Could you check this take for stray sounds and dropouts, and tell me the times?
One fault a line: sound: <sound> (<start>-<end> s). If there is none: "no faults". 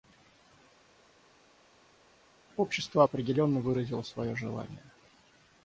no faults